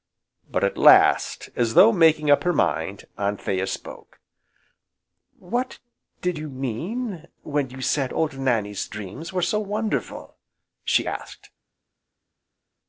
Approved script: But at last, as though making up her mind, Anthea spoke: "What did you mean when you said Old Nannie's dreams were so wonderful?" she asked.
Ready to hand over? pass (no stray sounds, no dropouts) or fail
pass